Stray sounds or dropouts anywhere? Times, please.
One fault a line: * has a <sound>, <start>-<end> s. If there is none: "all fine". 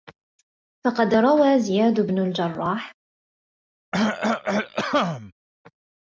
* has a cough, 3.9-5.3 s